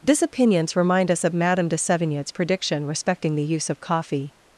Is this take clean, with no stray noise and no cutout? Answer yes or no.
yes